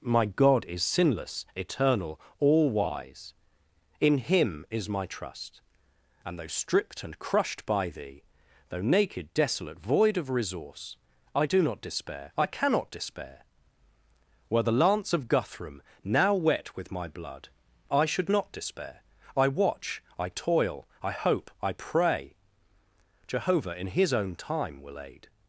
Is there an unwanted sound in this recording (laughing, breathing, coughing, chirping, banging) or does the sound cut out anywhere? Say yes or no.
no